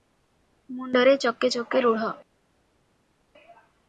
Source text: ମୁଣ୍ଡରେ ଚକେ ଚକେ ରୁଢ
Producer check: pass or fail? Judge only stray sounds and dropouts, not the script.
pass